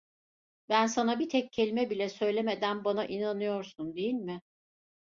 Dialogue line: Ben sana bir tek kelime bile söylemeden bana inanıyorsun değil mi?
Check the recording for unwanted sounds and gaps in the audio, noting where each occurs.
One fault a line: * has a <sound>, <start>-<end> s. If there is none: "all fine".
all fine